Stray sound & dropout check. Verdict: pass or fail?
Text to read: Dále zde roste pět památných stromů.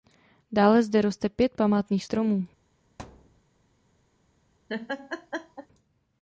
fail